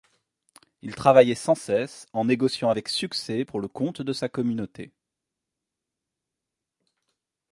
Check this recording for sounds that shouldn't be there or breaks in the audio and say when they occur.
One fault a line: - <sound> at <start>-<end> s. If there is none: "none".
none